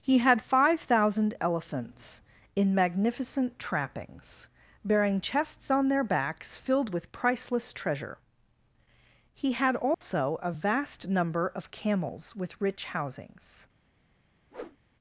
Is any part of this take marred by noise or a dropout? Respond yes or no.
yes